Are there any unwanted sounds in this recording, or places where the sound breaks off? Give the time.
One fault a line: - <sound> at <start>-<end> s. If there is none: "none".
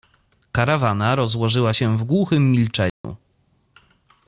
- dropout at 2.9-3.0 s